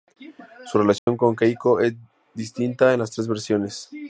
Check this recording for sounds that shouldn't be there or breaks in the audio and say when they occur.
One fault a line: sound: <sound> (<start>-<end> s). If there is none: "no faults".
sound: dropout (1.0-1.1 s)